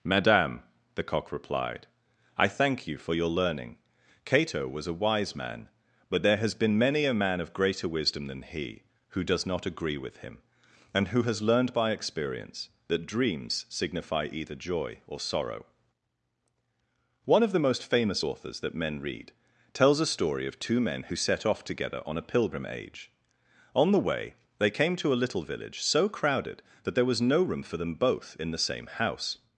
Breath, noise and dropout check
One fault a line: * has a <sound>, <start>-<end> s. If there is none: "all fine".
all fine